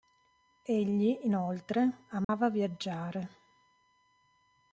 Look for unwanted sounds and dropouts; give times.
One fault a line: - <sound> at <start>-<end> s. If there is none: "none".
- dropout at 2.2-2.3 s